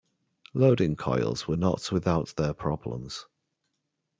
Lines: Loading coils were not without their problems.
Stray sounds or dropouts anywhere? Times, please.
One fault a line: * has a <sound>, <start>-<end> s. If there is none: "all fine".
all fine